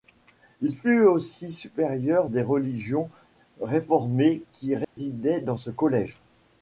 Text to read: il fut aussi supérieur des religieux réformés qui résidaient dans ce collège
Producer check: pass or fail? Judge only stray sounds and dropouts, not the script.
fail